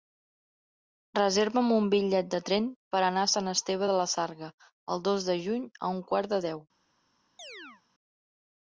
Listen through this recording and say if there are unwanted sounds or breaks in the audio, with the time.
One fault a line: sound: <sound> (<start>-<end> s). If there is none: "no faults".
sound: chirp (7.4-7.8 s)